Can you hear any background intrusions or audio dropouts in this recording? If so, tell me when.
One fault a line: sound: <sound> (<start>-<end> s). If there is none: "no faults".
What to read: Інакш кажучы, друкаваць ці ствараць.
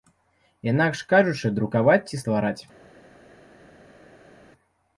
no faults